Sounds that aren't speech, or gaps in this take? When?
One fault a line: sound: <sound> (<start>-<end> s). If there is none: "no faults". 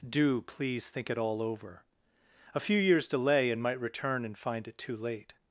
no faults